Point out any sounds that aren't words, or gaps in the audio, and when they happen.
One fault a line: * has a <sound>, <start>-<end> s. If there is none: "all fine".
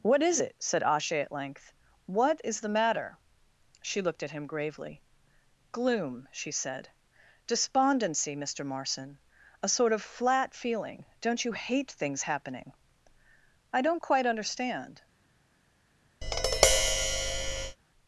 * has a tap, 16.2-17.8 s